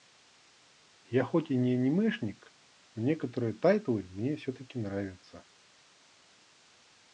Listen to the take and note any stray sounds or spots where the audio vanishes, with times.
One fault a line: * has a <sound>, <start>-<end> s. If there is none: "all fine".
all fine